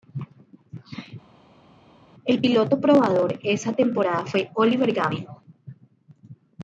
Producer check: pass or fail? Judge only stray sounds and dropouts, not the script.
pass